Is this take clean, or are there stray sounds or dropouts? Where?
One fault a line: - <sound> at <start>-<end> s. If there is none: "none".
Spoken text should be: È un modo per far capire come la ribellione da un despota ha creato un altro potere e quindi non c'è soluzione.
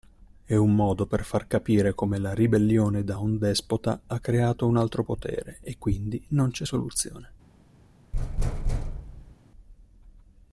- thud at 8.1-9.4 s